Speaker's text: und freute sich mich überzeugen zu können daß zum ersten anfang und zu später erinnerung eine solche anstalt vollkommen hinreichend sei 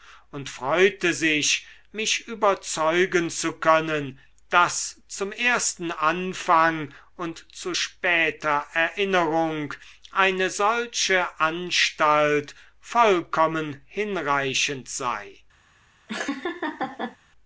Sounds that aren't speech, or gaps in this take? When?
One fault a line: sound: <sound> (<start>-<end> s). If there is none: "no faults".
sound: laugh (16.1-17.2 s)